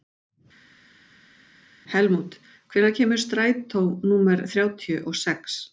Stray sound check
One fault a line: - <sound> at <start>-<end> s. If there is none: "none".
none